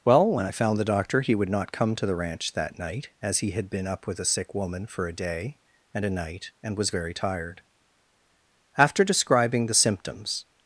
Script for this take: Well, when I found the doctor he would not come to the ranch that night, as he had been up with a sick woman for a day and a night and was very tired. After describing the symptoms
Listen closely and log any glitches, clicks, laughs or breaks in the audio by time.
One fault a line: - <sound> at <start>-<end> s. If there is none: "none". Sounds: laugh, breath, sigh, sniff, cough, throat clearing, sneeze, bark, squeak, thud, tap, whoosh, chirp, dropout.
none